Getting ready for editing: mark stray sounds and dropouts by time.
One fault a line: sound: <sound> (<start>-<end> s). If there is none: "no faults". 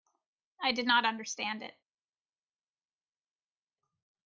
no faults